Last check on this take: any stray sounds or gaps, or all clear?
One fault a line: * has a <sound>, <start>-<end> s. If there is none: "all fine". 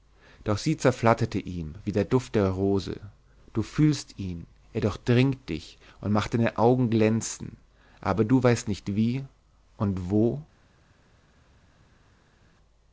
all fine